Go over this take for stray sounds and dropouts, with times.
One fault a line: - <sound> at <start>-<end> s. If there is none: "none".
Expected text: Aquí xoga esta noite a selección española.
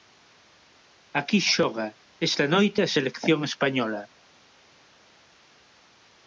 none